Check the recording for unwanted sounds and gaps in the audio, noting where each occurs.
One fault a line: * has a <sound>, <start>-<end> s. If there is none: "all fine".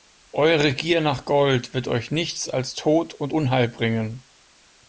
all fine